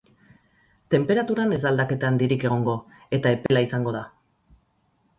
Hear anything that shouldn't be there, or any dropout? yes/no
yes